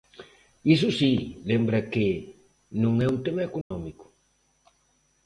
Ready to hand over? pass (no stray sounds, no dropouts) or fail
fail